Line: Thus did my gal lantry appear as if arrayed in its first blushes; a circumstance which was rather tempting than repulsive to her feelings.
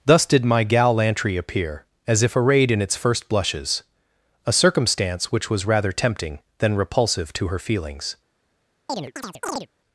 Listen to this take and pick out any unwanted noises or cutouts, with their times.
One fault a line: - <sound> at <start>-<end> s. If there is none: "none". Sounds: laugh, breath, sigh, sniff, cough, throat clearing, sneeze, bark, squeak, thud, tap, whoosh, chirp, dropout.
- chirp at 8.9-9.7 s